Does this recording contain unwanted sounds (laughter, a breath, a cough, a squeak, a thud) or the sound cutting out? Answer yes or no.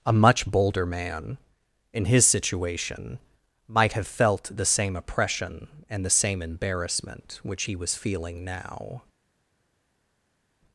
no